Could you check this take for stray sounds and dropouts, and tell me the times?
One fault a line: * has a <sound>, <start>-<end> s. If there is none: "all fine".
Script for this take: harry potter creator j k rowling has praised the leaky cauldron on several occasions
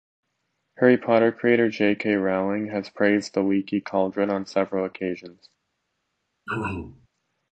* has a throat clearing, 6.5-7.1 s